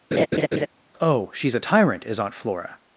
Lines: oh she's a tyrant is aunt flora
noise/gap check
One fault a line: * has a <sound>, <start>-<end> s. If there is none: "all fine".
* has a laugh, 0.1-0.7 s